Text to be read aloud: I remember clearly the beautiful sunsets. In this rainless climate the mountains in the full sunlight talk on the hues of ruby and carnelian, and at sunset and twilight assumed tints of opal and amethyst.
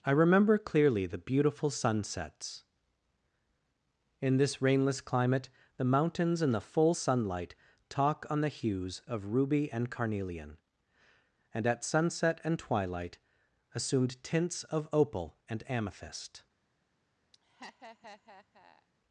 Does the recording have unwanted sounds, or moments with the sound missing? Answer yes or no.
yes